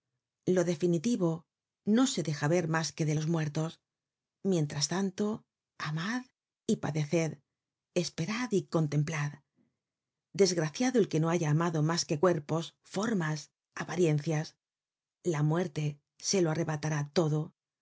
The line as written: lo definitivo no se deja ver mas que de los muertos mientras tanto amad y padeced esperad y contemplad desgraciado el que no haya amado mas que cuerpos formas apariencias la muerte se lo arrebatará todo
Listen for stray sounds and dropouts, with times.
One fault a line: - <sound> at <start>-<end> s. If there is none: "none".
none